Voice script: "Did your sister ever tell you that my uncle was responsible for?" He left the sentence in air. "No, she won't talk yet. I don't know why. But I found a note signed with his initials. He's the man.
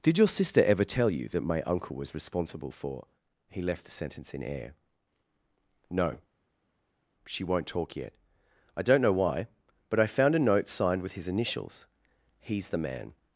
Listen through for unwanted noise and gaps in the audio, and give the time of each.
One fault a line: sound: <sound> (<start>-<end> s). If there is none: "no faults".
no faults